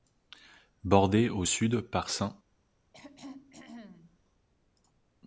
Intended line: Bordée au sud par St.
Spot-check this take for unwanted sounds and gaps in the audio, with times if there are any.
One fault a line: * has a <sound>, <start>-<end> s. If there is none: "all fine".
* has a throat clearing, 2.9-4.2 s